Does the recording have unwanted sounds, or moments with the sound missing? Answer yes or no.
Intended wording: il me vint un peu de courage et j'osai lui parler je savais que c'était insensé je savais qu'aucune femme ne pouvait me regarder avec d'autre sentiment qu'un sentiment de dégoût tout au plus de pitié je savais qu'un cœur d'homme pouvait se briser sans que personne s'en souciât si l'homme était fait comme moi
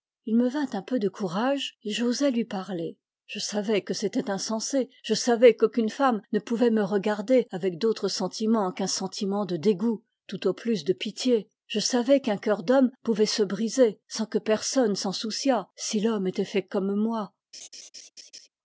yes